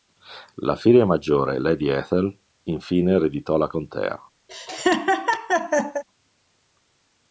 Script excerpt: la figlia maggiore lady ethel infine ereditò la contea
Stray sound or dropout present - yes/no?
yes